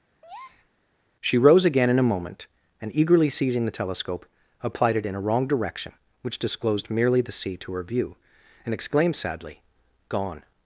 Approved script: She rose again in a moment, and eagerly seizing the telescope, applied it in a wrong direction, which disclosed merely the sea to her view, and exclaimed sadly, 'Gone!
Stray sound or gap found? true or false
true